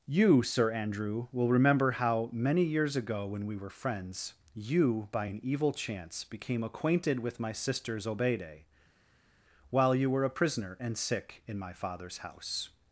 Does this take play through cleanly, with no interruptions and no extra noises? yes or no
yes